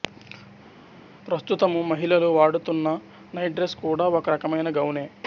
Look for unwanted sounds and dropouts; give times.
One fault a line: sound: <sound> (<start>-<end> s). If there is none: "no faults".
no faults